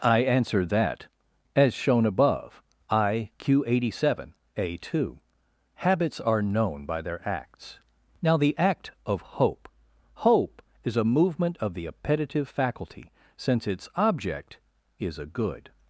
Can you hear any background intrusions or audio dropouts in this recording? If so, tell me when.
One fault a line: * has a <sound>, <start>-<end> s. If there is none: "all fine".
all fine